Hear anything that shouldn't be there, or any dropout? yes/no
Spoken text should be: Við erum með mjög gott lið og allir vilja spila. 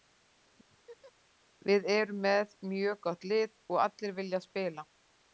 yes